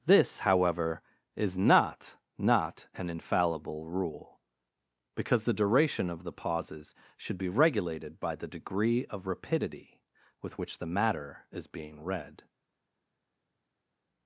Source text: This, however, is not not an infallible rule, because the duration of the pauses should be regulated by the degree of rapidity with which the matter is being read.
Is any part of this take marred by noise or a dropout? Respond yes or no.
no